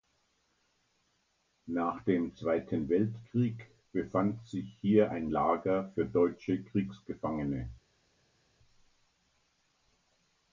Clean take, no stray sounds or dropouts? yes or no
yes